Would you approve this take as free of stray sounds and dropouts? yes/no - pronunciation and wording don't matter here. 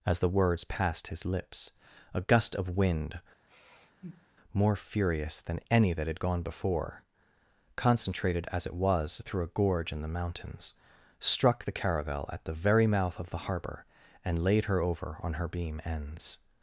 no